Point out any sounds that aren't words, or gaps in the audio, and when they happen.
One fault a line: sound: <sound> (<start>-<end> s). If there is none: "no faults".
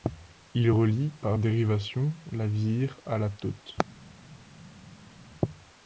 no faults